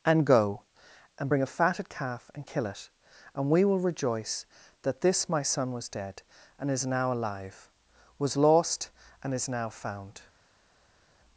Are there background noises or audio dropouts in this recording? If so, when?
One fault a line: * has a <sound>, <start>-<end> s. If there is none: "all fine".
all fine